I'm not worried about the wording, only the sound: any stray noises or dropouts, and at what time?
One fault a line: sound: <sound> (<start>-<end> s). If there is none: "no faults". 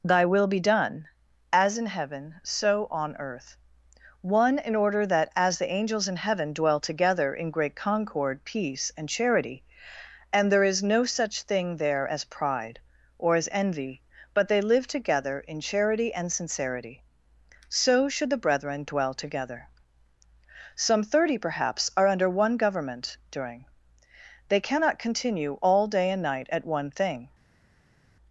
no faults